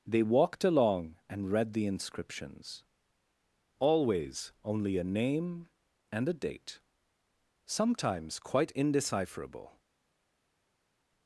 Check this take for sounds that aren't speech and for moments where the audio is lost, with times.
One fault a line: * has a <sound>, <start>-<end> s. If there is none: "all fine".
all fine